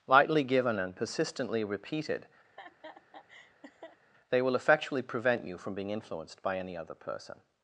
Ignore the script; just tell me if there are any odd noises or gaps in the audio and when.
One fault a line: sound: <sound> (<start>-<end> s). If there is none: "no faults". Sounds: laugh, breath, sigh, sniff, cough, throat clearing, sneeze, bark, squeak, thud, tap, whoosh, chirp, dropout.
sound: laugh (2.4-4.0 s)